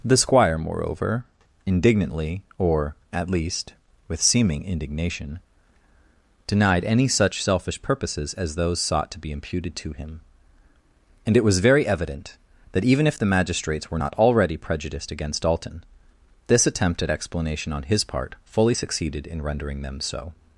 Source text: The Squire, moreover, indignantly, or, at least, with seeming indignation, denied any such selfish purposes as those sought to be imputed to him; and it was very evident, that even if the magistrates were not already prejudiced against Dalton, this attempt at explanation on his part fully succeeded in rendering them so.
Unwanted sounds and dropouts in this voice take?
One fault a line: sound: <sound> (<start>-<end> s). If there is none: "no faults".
no faults